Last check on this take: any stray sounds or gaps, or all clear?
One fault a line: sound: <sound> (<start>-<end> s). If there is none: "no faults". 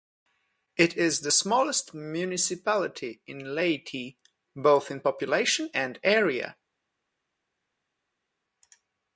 no faults